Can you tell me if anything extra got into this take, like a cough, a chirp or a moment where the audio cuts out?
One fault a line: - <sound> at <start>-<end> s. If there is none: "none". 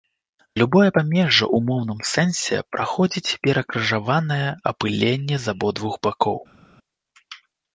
none